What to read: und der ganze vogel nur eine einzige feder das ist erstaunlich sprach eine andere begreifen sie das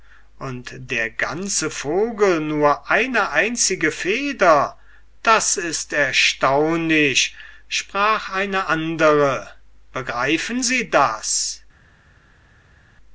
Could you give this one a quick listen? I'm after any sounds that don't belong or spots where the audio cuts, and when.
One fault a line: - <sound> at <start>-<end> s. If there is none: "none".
none